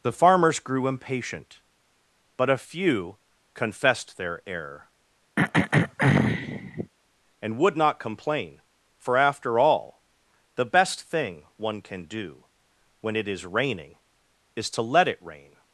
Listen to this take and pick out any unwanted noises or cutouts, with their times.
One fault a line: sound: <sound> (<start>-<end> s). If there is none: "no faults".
sound: throat clearing (5.4-6.9 s)